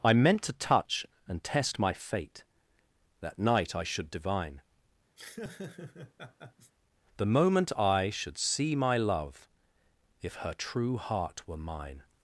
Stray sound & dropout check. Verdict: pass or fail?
fail